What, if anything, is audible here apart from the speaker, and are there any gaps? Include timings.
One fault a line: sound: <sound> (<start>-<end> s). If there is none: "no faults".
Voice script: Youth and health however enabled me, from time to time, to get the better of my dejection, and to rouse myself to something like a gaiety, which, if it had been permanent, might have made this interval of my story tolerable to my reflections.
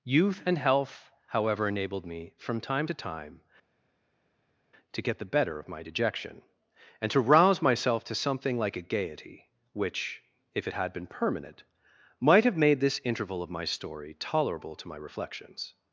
no faults